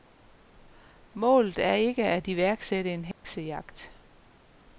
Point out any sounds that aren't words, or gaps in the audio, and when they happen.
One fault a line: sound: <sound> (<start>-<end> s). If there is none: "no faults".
sound: dropout (3.1-3.2 s)